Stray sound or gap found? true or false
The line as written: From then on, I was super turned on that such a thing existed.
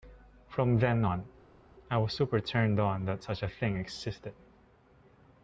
false